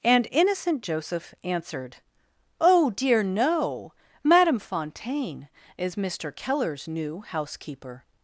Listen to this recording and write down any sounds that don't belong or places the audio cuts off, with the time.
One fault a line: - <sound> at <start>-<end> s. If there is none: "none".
none